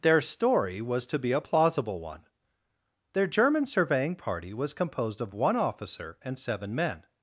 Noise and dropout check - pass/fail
pass